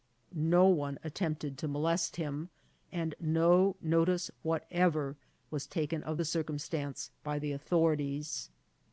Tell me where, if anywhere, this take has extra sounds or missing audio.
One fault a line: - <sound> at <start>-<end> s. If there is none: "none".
none